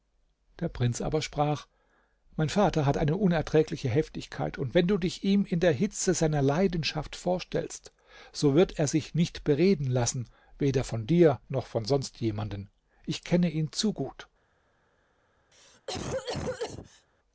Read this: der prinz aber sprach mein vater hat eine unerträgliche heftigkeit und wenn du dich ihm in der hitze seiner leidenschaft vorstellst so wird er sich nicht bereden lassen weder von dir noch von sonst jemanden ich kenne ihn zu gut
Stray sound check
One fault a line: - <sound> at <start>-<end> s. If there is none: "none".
- cough at 15.5-17.1 s